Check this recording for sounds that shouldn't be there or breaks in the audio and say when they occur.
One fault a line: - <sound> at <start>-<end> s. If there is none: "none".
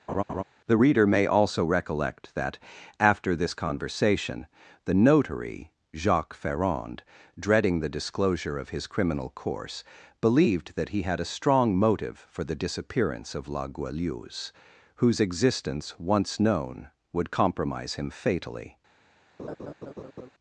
- laugh at 0.1-0.4 s
- laugh at 19.4-20.3 s